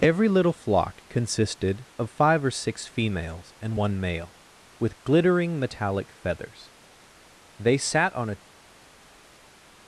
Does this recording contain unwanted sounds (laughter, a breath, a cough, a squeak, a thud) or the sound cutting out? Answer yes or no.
no